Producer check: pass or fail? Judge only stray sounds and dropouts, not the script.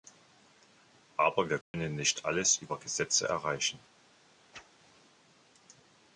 fail